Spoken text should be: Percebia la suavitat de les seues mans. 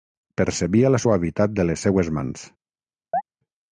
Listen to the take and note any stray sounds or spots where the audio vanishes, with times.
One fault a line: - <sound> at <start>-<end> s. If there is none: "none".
- chirp at 3.1-3.2 s